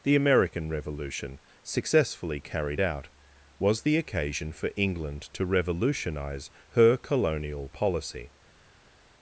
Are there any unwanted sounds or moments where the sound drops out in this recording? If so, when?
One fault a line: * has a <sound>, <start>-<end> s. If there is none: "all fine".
all fine